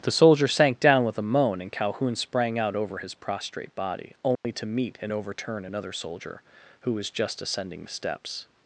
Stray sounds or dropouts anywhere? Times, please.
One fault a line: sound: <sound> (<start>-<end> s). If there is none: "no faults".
sound: dropout (4.4-4.4 s)